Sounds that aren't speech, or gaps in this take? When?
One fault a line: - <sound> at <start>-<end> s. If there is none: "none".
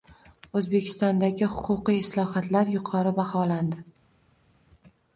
none